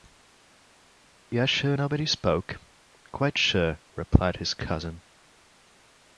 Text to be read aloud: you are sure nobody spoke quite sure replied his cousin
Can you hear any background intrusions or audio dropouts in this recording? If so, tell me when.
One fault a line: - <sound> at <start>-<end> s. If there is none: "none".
none